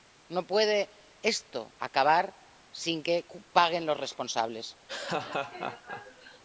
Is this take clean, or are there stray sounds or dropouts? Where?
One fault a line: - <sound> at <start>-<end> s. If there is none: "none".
- laugh at 4.9-6.4 s